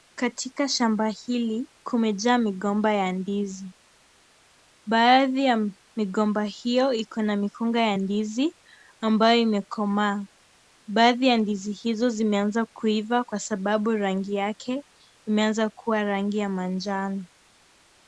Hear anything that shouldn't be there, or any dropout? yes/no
no